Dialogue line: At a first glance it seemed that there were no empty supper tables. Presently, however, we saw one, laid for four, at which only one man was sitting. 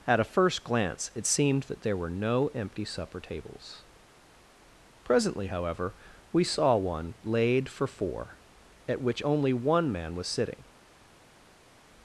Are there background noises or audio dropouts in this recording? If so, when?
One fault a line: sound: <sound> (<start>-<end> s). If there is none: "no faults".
no faults